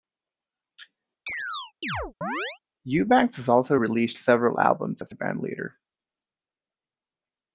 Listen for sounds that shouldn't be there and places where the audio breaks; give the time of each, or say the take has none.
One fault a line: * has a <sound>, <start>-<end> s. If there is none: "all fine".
* has a chirp, 1.3-2.6 s